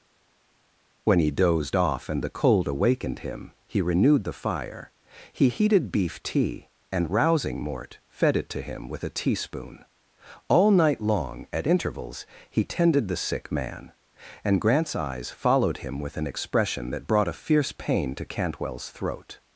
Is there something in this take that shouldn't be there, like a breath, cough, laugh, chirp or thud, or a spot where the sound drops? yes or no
no